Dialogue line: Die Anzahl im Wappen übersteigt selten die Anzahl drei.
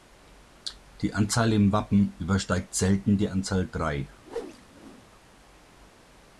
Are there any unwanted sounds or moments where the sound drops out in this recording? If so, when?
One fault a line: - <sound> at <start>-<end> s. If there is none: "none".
- whoosh at 4.2-5.0 s